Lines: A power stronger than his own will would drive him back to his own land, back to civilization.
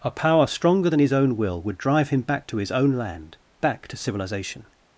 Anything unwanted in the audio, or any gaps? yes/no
no